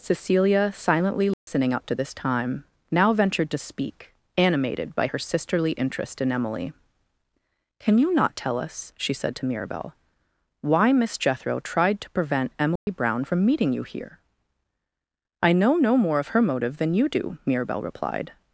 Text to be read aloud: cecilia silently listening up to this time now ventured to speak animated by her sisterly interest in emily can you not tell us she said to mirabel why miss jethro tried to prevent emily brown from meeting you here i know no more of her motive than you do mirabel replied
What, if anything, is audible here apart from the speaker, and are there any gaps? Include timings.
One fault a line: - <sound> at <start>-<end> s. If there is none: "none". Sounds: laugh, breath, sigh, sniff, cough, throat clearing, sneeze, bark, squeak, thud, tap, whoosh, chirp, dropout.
- dropout at 1.3-1.5 s
- dropout at 12.8-12.9 s